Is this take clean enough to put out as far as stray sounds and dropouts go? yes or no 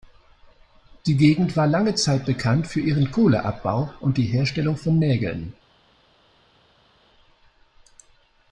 yes